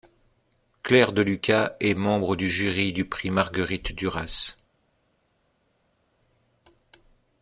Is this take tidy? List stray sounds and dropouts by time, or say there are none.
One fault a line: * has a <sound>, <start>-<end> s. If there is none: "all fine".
all fine